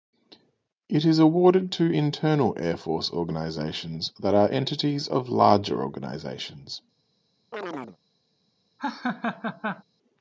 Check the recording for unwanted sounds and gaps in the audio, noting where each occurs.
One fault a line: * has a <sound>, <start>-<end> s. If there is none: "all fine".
* has a chirp, 7.5-8.0 s
* has a laugh, 8.8-9.8 s